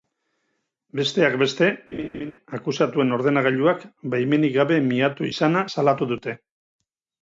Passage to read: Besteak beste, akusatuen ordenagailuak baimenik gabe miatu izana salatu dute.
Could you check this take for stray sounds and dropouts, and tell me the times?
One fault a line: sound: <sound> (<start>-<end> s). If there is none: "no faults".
sound: laugh (1.9-2.3 s)